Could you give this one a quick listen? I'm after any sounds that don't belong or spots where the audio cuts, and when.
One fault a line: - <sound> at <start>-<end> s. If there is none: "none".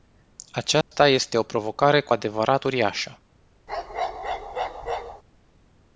- dropout at 0.8-0.9 s
- bark at 3.7-5.2 s